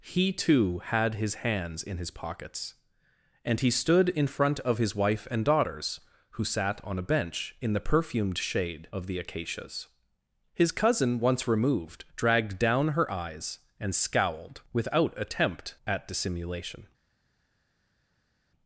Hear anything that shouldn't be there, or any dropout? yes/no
no